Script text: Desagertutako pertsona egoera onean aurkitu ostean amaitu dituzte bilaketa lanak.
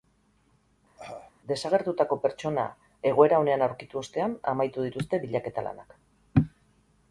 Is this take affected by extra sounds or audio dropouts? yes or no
yes